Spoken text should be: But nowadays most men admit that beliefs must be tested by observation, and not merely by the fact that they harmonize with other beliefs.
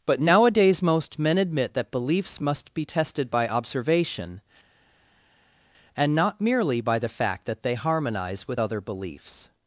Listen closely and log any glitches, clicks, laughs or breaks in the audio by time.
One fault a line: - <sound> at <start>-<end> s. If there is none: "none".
none